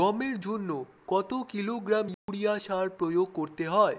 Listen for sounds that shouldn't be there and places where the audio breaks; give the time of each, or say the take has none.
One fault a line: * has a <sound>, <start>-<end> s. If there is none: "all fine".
* has a dropout, 2.1-2.3 s